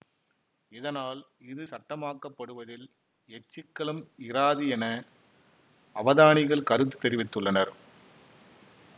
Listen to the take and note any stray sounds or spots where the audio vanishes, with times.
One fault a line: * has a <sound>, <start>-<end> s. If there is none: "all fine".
all fine